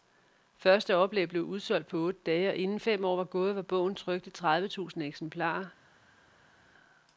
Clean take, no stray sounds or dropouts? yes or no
yes